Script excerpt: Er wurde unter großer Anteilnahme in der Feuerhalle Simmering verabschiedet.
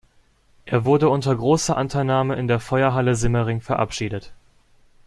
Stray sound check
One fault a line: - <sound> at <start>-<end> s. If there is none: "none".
none